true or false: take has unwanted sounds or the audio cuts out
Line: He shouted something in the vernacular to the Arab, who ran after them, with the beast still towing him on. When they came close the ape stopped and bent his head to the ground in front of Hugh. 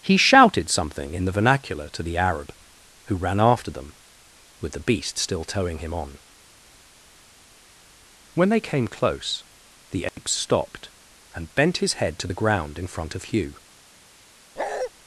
true